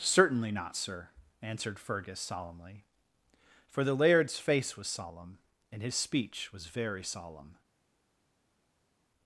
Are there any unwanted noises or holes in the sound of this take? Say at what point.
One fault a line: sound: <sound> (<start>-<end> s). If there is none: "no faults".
no faults